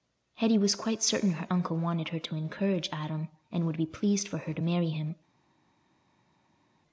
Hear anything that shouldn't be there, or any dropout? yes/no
no